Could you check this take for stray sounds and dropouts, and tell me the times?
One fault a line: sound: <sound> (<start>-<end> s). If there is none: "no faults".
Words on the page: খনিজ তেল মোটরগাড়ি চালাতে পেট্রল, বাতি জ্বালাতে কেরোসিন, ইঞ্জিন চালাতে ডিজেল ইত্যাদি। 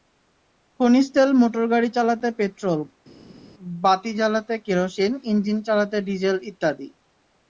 no faults